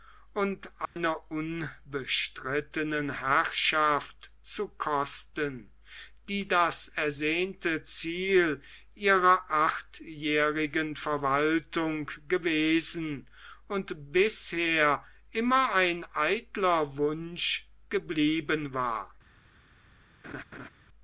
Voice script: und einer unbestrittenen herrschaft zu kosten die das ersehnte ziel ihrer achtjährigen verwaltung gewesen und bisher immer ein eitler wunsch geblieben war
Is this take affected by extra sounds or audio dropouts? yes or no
yes